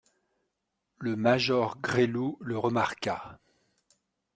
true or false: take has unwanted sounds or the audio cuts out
false